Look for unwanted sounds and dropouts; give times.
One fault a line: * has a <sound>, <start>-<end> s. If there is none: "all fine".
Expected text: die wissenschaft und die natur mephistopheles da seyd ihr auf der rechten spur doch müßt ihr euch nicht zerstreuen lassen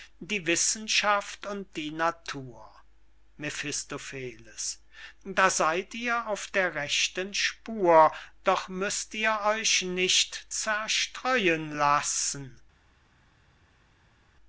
all fine